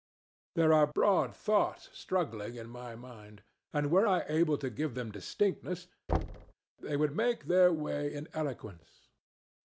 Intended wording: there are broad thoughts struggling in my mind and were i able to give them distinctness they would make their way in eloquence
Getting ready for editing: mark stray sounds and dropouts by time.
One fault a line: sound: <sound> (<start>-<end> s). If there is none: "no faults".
sound: thud (6.1-6.5 s)